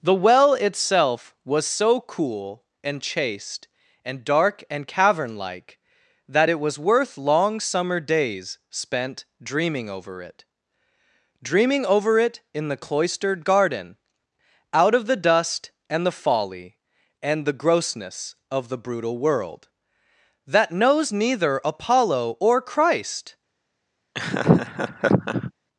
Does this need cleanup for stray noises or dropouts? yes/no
yes